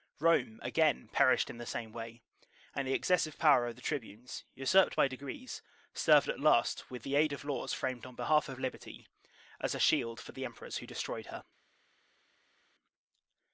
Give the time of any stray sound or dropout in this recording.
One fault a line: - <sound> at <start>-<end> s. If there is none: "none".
none